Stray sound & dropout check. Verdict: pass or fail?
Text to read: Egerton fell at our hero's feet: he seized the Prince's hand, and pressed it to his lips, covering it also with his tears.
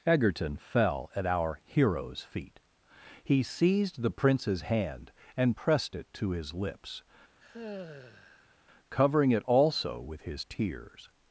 fail